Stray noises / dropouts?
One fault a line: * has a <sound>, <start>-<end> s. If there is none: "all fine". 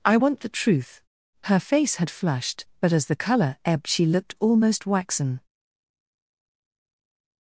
all fine